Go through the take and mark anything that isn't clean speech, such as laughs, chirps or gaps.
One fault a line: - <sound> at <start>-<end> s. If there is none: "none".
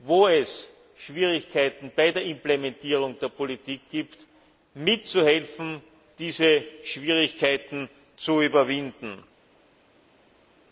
none